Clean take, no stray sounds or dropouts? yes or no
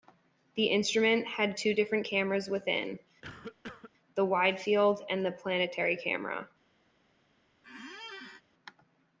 no